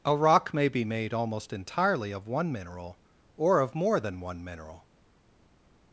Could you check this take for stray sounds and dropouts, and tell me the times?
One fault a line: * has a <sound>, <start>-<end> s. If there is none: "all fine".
all fine